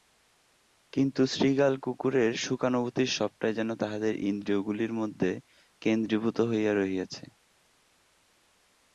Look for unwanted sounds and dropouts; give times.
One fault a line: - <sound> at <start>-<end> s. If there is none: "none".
none